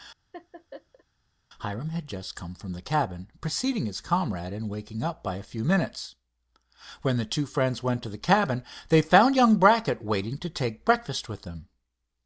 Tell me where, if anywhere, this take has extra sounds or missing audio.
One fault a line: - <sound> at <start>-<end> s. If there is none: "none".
- laugh at 0.3-1.0 s